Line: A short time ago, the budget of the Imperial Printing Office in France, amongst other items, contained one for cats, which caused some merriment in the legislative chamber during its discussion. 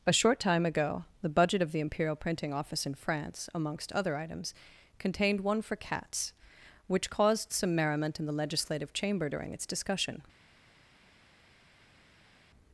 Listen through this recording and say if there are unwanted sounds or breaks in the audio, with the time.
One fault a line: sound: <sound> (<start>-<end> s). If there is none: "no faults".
no faults